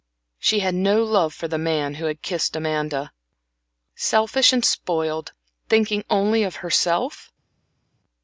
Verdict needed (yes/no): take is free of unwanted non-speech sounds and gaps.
yes